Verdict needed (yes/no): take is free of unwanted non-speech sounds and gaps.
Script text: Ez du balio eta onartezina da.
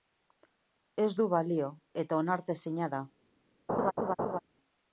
no